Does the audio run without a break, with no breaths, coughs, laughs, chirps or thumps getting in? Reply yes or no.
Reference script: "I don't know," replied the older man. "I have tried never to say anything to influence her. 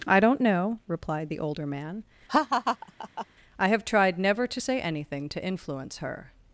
no